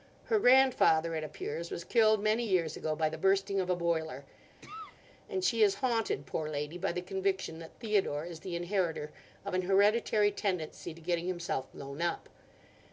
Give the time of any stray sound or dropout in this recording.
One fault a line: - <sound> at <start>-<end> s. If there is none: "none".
- cough at 4.6-5.0 s